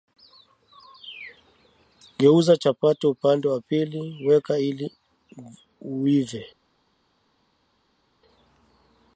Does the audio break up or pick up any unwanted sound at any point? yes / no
no